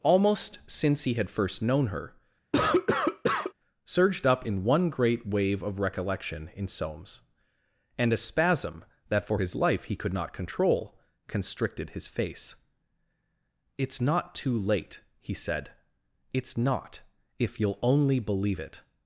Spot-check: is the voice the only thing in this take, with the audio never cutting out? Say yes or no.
no